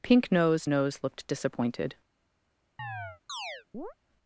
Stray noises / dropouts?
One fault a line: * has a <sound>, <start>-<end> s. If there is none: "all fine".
* has a chirp, 2.8-3.9 s